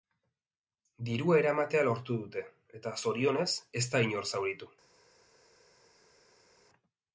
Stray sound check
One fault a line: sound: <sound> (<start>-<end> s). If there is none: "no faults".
no faults